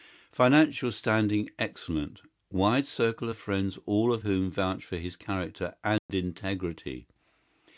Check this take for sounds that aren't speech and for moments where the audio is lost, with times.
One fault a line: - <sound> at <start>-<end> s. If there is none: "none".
- dropout at 6.0-6.1 s